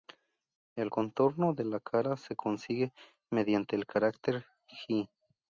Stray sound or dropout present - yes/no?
no